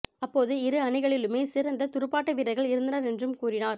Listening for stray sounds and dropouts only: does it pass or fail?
pass